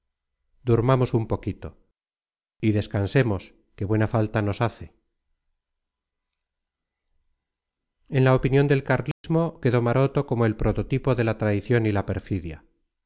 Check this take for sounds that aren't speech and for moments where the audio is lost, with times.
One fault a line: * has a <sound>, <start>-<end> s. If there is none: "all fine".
* has a dropout, 9.1-9.2 s